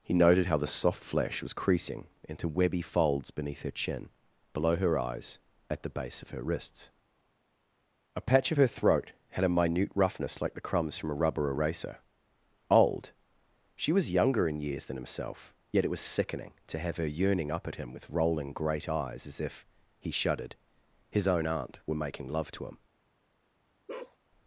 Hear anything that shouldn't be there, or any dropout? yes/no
yes